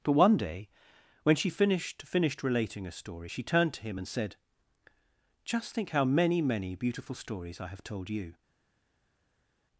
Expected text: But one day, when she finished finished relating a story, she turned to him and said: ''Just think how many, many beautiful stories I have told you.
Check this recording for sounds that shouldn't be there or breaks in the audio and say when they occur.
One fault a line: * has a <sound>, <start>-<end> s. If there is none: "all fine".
all fine